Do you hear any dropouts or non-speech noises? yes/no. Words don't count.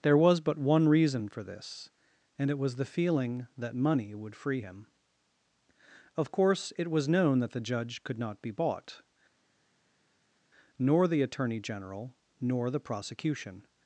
no